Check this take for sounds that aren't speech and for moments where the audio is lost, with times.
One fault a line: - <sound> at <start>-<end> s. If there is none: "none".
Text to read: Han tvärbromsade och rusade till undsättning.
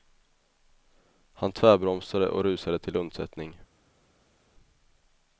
none